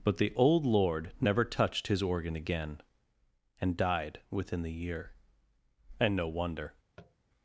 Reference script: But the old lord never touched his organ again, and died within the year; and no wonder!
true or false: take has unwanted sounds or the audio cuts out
true